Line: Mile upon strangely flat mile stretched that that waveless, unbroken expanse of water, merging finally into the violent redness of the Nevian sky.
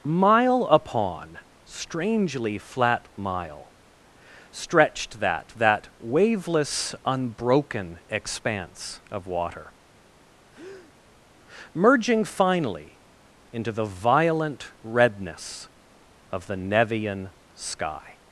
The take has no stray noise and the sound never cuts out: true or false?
false